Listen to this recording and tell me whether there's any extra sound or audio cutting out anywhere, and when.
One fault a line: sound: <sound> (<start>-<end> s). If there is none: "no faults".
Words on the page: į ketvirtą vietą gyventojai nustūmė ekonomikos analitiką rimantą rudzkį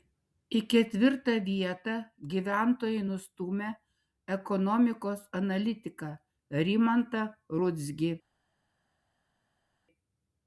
no faults